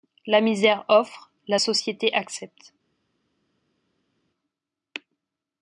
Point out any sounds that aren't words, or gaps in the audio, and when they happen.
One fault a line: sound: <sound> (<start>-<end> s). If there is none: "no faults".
no faults